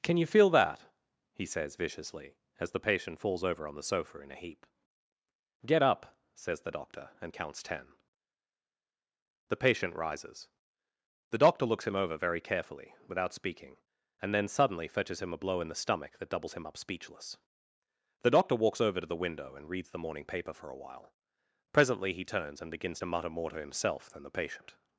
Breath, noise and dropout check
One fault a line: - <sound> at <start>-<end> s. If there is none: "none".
none